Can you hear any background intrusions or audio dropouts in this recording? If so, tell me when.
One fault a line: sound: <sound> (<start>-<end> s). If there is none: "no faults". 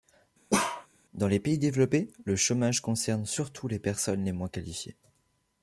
sound: bark (0.5-0.9 s)